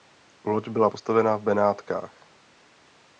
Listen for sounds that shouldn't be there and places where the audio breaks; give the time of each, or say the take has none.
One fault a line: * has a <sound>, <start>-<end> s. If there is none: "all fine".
all fine